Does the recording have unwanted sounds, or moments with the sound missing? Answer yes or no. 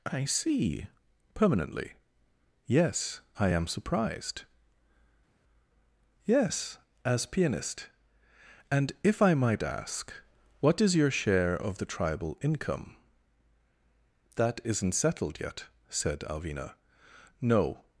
no